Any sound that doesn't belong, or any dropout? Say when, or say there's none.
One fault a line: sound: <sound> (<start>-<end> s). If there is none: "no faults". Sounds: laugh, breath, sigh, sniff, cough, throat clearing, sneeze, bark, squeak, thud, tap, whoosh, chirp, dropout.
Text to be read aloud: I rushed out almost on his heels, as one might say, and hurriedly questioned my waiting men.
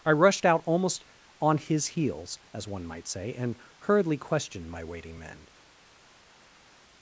no faults